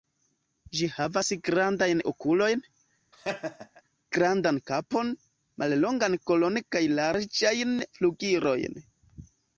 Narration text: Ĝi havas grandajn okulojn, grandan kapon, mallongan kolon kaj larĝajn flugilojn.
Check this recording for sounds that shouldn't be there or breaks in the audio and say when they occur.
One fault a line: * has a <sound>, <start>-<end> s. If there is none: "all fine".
* has a laugh, 3.1-3.8 s